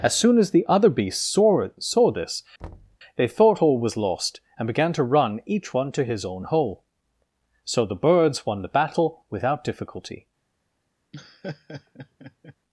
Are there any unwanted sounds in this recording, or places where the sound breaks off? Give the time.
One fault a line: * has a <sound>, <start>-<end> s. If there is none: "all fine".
* has a thud, 2.6-3.0 s
* has a laugh, 11.1-12.6 s